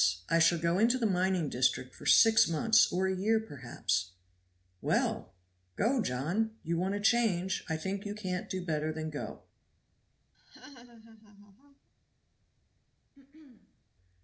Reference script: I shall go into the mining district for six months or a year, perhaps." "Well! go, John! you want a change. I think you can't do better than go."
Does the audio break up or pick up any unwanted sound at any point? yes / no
yes